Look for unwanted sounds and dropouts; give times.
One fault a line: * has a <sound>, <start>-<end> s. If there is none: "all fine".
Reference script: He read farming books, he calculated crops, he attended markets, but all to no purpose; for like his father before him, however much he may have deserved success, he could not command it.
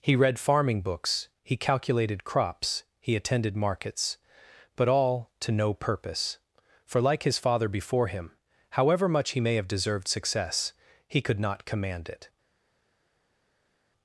all fine